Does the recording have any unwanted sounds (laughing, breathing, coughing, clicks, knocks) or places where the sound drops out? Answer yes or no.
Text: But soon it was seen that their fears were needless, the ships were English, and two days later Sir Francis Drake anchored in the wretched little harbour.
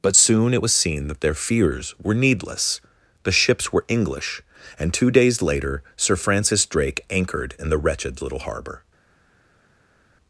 no